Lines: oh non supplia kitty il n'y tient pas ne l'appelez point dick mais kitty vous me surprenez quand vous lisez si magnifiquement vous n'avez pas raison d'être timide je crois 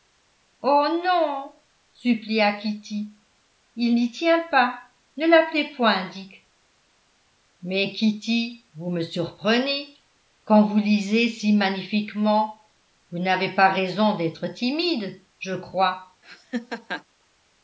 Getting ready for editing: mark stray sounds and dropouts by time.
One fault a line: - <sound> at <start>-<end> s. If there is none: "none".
- laugh at 16.2-17.0 s